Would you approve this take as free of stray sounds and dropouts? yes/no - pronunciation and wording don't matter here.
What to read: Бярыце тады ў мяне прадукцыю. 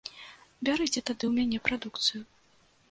yes